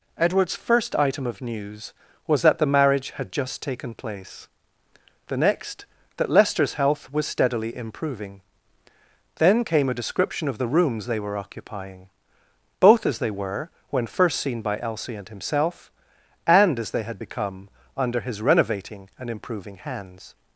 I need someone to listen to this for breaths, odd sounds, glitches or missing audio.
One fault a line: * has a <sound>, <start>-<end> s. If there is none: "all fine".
all fine